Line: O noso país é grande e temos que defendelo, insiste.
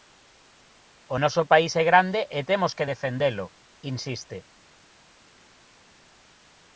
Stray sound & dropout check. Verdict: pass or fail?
pass